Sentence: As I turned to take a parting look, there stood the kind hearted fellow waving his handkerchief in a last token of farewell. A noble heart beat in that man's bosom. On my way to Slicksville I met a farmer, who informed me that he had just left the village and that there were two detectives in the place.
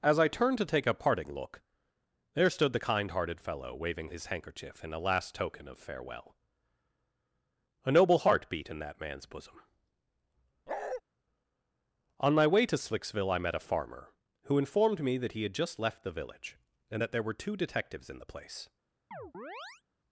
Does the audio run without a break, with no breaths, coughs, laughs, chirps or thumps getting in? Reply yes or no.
no